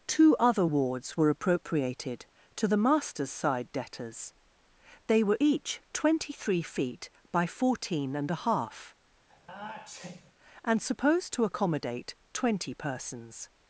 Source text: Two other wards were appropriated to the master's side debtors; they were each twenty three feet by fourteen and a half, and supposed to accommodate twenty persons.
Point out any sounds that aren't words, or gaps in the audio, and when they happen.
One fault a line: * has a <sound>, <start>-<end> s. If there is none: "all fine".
* has a sneeze, 9.3-10.3 s